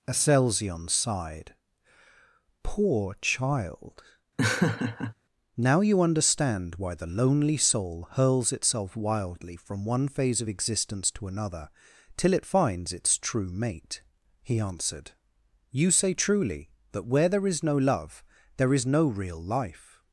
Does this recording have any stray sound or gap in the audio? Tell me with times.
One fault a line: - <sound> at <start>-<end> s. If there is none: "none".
- laugh at 4.4-5.1 s